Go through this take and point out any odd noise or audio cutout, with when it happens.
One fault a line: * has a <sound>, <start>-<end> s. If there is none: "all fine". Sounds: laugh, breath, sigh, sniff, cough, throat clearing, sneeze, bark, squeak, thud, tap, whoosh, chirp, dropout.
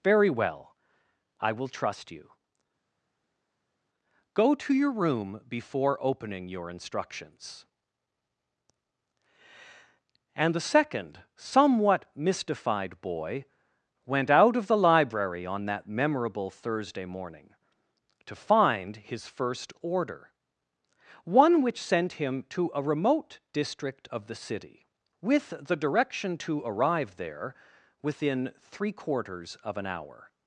all fine